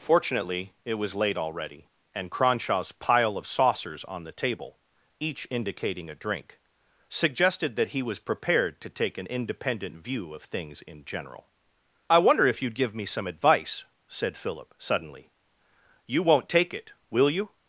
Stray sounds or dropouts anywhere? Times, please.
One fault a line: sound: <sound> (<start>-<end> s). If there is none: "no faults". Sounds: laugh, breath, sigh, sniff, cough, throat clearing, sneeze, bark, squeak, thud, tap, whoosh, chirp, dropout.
no faults